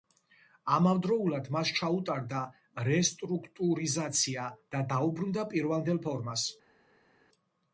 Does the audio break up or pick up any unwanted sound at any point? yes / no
no